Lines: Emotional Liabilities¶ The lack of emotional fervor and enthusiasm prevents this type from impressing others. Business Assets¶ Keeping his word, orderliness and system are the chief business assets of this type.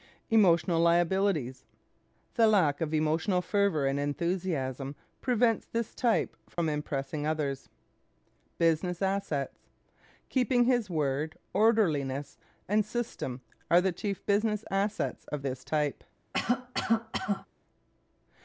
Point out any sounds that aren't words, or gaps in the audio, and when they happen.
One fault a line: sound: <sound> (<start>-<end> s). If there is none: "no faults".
sound: dropout (6.5-6.6 s)
sound: cough (16.3-17.5 s)